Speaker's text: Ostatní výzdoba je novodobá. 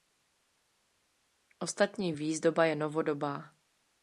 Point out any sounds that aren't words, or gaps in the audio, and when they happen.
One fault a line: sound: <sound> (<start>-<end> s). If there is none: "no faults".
no faults